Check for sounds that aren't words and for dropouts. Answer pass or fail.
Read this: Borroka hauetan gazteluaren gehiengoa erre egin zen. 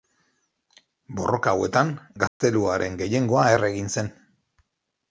fail